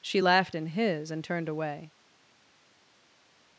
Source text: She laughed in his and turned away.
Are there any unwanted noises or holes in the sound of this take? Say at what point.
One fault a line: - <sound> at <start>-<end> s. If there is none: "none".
none